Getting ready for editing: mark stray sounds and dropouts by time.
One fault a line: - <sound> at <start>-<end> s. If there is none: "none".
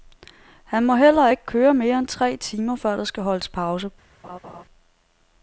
- laugh at 4.2-4.6 s